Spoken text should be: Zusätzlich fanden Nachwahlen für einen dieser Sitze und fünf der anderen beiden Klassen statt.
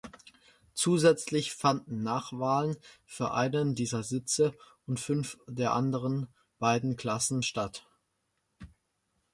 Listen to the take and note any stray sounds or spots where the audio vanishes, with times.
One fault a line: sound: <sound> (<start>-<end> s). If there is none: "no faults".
no faults